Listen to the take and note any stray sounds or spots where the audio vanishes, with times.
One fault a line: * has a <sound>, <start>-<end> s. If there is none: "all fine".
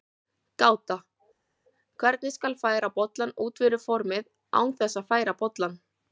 all fine